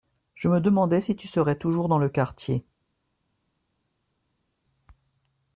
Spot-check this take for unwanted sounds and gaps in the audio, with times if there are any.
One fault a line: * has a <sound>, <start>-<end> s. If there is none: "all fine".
all fine